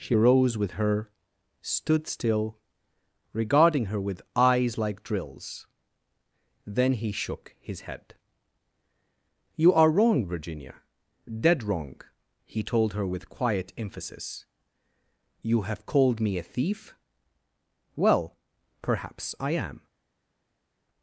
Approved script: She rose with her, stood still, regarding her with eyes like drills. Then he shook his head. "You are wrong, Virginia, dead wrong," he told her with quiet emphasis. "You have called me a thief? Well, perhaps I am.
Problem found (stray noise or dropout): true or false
false